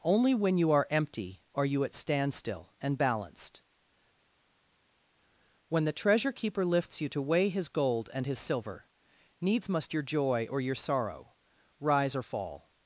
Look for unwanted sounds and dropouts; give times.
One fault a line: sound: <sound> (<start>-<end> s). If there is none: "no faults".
no faults